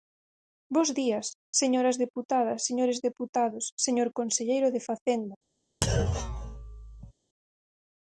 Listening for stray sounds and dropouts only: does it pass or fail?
fail